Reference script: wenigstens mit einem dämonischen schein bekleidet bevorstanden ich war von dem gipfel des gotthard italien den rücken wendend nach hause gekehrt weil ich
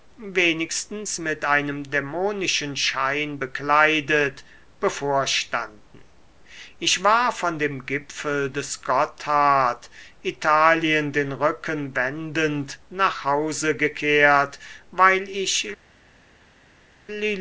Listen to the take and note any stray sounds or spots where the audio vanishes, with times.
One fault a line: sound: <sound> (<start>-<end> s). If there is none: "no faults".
no faults